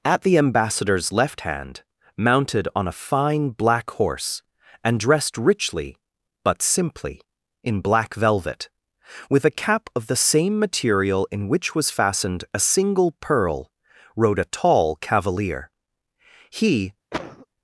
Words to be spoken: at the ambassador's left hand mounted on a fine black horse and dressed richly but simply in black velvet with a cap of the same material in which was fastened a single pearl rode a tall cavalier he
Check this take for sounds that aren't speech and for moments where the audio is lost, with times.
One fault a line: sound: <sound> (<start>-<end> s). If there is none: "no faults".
sound: cough (17.1-17.5 s)